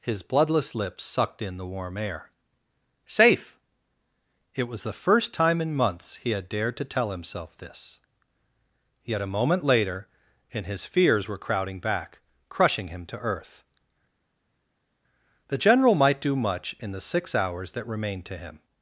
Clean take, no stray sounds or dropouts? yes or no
yes